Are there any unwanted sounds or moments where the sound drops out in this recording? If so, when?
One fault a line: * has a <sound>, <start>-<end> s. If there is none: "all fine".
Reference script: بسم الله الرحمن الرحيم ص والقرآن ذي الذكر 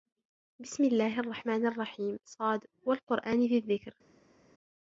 all fine